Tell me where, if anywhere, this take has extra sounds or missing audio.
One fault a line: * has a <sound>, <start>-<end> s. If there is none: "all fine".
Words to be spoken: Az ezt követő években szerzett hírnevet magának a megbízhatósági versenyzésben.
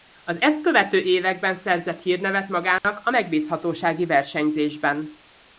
* has a dropout, 2.8-2.8 s